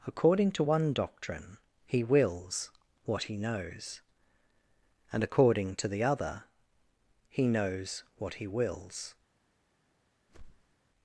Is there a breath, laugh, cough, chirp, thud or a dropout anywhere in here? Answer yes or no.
yes